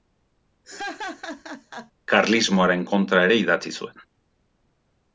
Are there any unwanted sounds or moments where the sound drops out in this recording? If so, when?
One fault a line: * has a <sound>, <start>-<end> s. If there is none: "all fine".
* has a laugh, 0.6-1.9 s